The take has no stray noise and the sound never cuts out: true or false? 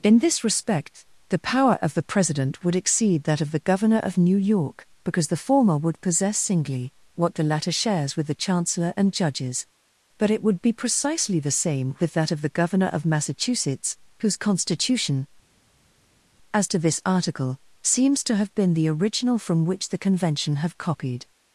true